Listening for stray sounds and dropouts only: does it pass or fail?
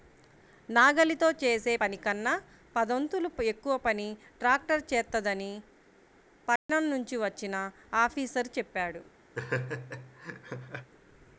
fail